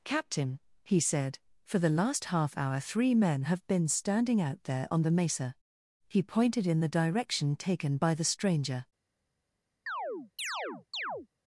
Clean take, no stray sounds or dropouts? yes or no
no